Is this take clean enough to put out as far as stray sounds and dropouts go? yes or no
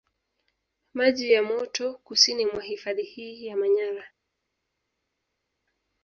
yes